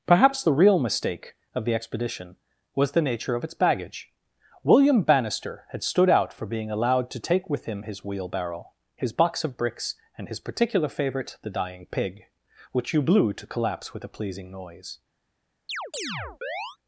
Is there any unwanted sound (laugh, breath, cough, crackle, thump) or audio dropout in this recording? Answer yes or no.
yes